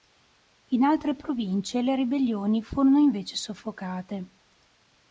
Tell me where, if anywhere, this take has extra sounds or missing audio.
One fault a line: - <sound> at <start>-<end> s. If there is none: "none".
none